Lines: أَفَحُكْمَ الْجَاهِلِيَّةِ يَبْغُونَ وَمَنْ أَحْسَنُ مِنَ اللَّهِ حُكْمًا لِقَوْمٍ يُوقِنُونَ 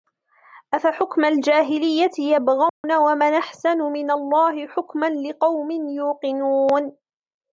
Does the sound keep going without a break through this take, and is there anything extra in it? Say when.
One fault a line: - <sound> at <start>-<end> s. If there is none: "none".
- dropout at 2.7-2.8 s